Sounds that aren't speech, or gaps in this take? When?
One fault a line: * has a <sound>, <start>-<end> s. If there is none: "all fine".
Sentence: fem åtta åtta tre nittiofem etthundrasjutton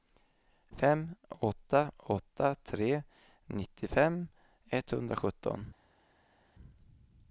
all fine